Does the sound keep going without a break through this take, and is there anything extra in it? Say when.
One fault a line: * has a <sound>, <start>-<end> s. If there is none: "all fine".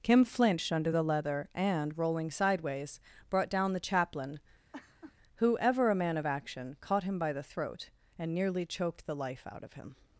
* has a laugh, 4.7-5.1 s